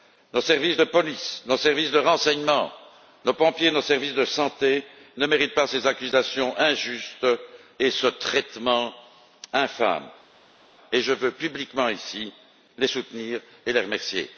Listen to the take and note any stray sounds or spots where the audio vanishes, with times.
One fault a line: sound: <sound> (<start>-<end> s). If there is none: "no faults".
no faults